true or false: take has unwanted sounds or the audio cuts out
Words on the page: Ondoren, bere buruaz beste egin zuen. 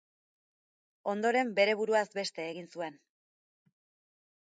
false